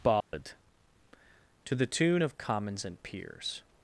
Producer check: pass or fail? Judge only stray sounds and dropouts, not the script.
fail